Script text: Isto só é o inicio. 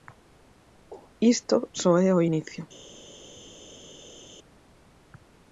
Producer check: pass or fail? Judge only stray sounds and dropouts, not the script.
pass